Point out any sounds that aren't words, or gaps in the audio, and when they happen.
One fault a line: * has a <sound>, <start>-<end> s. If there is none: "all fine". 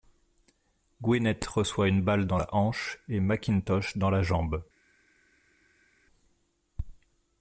all fine